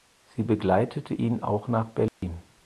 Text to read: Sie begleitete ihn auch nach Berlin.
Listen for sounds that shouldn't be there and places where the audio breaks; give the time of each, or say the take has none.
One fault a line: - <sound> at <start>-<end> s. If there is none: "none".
- dropout at 2.1-2.2 s